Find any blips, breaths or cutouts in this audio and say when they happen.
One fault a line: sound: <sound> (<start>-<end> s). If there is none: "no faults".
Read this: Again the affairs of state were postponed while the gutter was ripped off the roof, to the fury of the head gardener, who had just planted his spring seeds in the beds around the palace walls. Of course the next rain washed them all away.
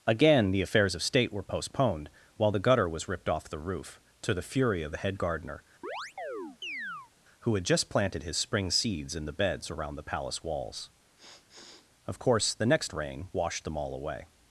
sound: chirp (5.8-7.1 s)
sound: sniff (11.2-11.9 s)